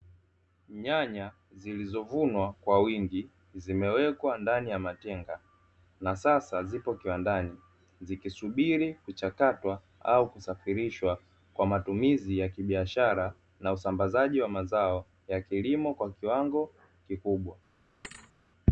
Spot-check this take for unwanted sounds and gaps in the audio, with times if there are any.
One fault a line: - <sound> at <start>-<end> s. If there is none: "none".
- thud at 18.0-18.3 s